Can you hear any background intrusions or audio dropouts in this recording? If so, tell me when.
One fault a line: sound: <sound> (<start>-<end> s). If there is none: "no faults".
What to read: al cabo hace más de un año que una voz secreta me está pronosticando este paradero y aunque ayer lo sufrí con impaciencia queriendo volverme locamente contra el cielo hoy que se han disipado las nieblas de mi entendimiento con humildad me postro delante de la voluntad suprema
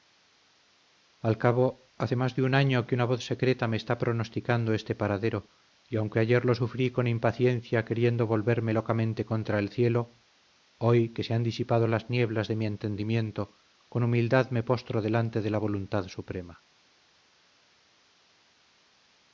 no faults